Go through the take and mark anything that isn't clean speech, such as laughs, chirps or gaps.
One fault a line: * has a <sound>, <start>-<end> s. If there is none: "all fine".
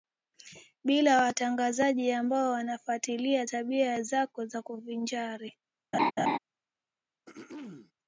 * has a laugh, 5.9-6.4 s
* has a throat clearing, 7.3-7.9 s